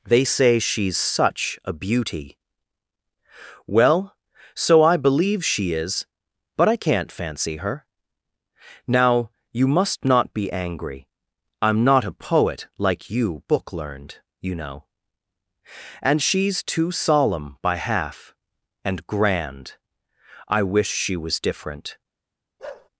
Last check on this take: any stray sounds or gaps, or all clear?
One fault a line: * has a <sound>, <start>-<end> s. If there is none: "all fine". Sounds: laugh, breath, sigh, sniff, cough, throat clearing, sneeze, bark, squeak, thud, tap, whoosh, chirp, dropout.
* has a bark, 22.6-22.9 s